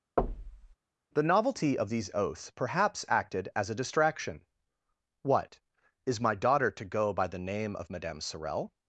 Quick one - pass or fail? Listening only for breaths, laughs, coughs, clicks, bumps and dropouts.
fail